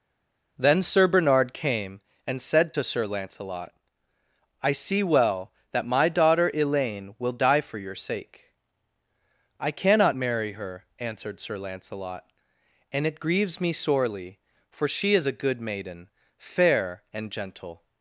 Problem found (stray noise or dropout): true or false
false